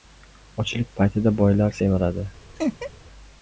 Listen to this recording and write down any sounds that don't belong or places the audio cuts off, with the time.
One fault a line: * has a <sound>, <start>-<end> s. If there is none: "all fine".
* has a laugh, 2.6-2.9 s